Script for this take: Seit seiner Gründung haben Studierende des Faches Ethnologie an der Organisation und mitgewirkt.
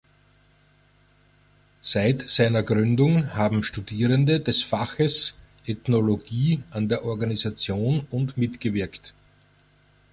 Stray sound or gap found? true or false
false